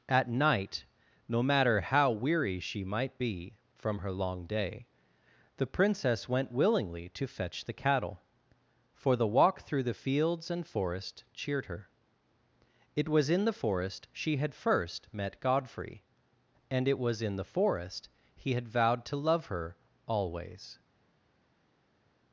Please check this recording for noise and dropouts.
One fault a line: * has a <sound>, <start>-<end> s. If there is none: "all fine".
all fine